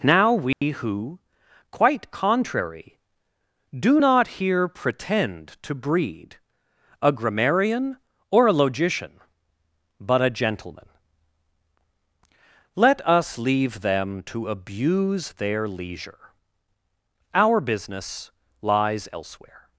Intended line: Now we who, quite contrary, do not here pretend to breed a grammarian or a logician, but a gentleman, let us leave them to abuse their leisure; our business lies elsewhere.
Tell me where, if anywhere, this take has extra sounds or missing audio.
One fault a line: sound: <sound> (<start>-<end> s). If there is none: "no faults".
sound: dropout (0.5-0.6 s)